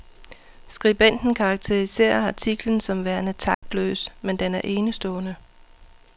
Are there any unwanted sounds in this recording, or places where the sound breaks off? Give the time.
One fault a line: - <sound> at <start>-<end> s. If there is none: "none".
- dropout at 3.5-3.6 s